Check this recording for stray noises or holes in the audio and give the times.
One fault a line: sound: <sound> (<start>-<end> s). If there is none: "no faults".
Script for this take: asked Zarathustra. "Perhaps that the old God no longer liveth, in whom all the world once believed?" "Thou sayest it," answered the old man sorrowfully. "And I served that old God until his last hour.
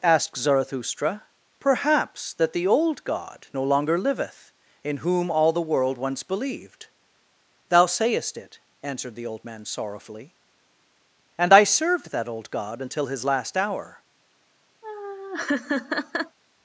sound: laugh (14.8-16.4 s)